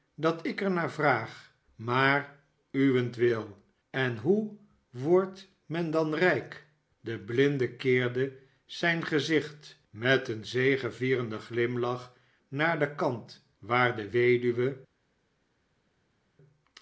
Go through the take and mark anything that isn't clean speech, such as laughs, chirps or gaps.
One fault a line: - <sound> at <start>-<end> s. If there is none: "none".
none